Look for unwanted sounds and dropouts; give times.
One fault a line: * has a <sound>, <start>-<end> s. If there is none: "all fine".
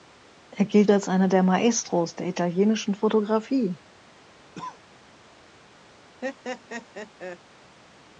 * has a cough, 4.5-4.8 s
* has a laugh, 6.2-7.4 s